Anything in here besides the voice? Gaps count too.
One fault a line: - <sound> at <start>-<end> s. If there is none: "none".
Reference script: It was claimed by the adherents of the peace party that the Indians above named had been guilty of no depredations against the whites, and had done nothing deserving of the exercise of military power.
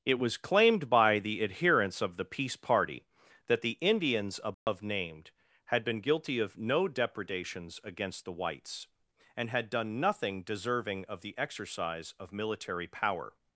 - dropout at 4.5-4.7 s